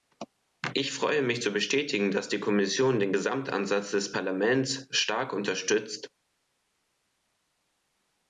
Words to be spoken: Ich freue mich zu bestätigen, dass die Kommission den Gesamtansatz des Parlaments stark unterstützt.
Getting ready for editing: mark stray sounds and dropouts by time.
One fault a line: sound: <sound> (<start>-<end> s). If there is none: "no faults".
no faults